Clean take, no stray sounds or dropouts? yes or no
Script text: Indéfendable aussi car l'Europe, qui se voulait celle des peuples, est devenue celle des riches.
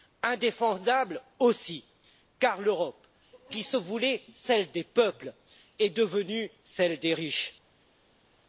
yes